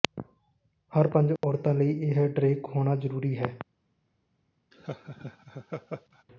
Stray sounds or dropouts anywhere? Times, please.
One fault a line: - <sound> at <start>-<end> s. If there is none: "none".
- dropout at 1.4-1.4 s
- laugh at 4.7-6.2 s